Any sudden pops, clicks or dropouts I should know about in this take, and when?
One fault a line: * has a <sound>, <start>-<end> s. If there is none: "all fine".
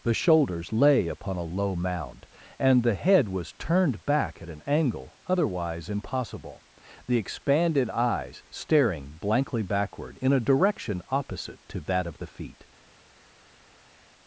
all fine